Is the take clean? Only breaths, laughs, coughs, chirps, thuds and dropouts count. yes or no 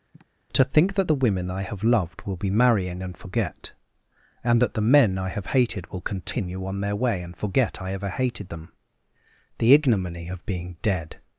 no